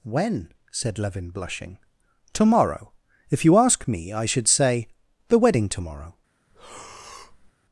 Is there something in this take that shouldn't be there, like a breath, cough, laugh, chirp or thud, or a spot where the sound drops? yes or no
yes